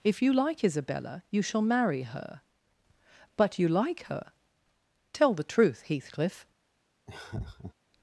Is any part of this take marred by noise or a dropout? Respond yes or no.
yes